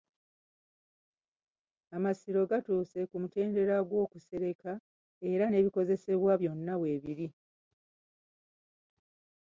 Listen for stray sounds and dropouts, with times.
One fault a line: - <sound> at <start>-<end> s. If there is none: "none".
none